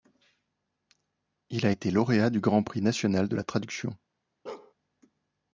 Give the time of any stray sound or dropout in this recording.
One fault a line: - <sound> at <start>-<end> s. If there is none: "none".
- bark at 4.5-4.7 s